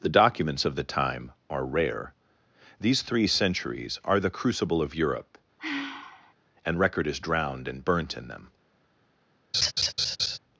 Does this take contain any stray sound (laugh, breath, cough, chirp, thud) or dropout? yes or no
yes